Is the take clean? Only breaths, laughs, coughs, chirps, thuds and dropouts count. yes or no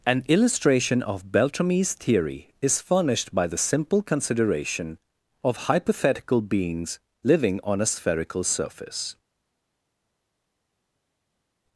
yes